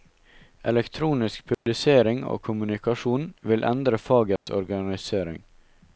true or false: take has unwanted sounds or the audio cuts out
true